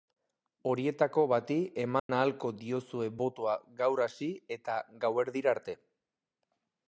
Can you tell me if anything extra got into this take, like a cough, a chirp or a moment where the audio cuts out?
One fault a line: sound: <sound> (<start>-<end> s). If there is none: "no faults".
sound: dropout (2.0-2.1 s)